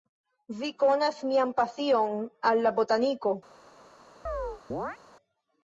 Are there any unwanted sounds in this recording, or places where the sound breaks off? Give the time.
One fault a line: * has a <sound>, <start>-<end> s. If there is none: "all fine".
* has a chirp, 4.3-5.0 s